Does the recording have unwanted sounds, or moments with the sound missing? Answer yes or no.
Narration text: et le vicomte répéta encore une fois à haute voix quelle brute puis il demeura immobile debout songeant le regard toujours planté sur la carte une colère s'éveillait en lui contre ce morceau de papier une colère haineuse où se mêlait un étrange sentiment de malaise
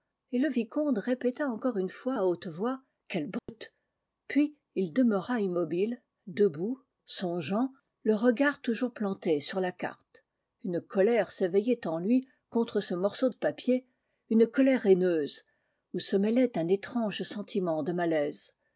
yes